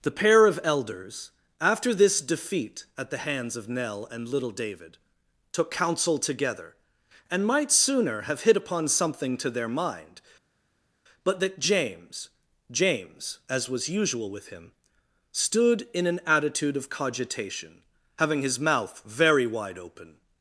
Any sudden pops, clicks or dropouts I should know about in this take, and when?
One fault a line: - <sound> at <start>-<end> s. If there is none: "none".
none